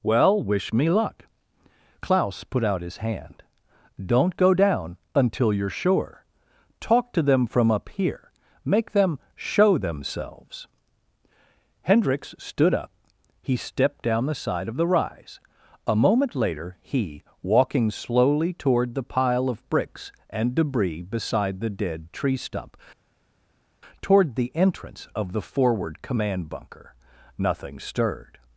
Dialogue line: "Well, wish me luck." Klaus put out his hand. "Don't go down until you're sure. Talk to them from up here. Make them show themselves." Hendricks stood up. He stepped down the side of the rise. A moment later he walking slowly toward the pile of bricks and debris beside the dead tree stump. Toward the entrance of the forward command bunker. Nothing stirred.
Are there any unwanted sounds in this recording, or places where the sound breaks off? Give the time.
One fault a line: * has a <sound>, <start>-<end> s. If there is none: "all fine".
all fine